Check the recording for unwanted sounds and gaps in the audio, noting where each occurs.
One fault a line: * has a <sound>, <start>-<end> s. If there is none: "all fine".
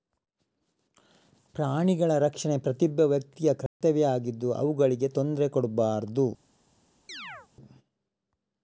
* has a dropout, 3.7-3.8 s
* has a chirp, 7.1-7.5 s